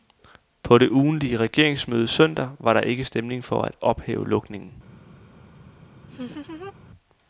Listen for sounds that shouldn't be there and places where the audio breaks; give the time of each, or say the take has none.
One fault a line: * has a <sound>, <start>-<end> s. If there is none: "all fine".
* has a laugh, 6.1-6.7 s